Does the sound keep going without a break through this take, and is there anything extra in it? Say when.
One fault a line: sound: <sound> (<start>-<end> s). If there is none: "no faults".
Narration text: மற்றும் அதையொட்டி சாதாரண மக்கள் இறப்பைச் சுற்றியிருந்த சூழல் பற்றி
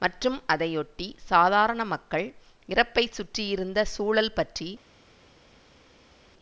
no faults